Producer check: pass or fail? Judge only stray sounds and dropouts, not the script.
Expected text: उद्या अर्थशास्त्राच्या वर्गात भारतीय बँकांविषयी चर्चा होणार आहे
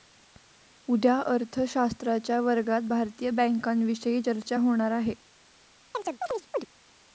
fail